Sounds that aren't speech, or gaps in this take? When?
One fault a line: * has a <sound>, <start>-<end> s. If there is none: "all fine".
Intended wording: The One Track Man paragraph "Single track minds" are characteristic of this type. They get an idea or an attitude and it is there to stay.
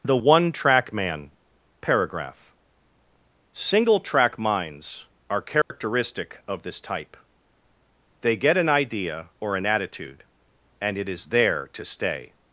* has a dropout, 5.6-5.7 s